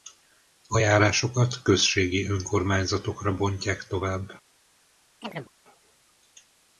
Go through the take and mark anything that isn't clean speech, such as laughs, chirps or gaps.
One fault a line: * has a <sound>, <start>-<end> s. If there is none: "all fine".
* has a chirp, 5.2-5.5 s